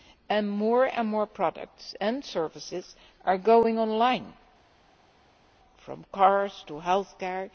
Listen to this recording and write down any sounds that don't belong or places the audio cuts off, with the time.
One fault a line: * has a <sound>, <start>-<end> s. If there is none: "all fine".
all fine